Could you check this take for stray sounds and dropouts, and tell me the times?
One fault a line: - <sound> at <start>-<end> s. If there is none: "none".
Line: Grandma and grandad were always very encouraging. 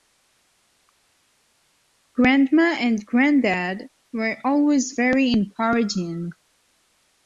none